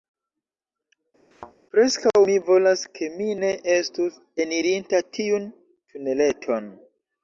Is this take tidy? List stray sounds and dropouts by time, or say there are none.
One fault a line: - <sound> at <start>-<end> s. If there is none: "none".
- thud at 1.3-1.5 s